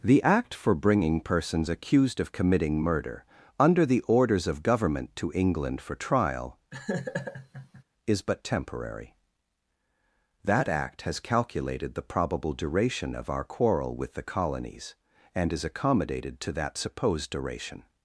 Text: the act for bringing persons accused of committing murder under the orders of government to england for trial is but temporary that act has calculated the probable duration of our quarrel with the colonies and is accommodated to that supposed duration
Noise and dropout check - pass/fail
fail